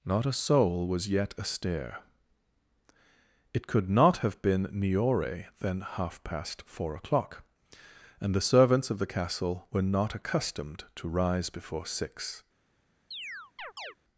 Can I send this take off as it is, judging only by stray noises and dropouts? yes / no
no